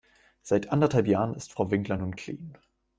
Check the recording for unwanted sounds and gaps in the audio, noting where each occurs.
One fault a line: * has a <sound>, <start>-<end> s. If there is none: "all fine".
all fine